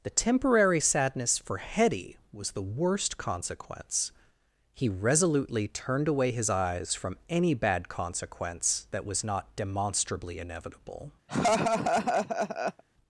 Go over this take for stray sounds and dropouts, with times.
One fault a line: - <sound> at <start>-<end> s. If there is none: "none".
- laugh at 11.3-12.8 s